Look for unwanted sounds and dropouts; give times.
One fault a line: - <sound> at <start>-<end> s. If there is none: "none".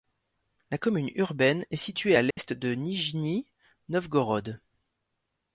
- dropout at 2.3-2.4 s